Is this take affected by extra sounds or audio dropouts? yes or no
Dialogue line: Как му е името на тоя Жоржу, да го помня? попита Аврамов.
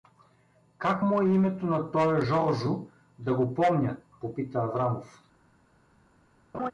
yes